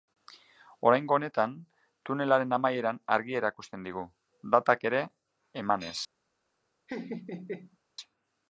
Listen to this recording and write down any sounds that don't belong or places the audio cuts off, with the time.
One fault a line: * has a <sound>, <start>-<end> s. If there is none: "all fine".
* has a laugh, 6.9-7.8 s